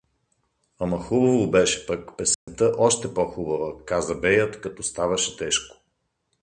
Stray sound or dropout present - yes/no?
yes